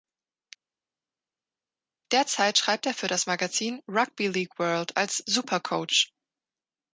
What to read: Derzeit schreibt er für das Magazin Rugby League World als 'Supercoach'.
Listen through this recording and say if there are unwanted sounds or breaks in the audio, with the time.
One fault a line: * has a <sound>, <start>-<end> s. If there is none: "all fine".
all fine